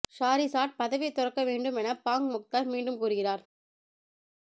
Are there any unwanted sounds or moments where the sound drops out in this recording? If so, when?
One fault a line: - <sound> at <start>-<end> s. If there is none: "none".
none